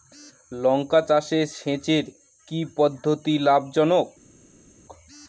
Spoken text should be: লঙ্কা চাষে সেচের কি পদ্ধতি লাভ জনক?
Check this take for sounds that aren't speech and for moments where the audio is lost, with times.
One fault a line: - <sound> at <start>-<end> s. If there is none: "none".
none